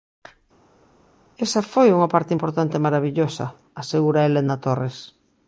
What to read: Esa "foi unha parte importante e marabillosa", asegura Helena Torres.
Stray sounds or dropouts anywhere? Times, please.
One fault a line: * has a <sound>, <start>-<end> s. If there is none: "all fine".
all fine